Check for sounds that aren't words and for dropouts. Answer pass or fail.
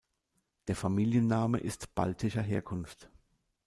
pass